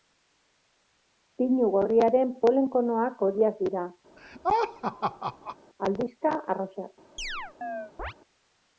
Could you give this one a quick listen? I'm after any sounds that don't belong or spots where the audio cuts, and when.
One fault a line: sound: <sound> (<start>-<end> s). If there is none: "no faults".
sound: laugh (4.2-5.6 s)
sound: chirp (7.2-8.1 s)